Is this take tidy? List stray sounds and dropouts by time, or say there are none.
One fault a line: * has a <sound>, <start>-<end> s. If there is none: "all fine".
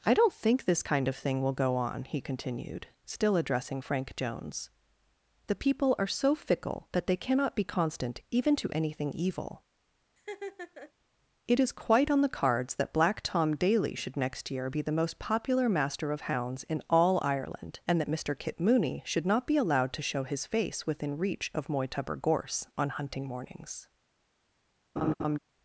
* has a laugh, 10.2-10.9 s
* has a laugh, 25.0-25.4 s